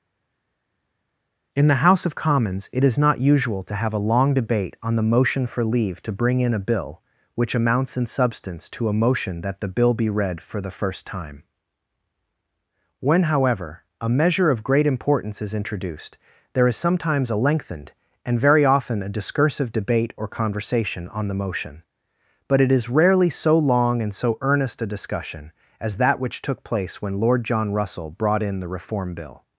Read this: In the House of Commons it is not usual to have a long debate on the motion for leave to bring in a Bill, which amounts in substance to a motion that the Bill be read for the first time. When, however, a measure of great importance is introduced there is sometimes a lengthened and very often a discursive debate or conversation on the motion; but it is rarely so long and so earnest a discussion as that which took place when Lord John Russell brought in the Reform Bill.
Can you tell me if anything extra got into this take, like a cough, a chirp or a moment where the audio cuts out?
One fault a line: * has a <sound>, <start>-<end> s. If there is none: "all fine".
all fine